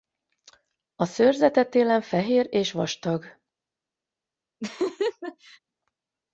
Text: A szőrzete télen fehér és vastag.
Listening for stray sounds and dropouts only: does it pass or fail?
fail